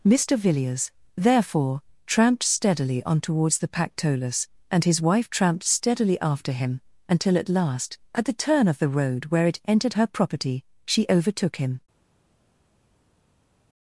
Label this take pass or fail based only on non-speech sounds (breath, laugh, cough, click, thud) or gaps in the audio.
pass